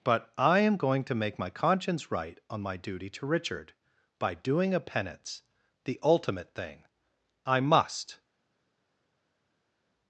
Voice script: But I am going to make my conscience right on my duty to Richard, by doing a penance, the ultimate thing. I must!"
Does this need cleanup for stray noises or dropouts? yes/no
no